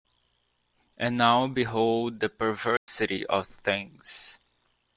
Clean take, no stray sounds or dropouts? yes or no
no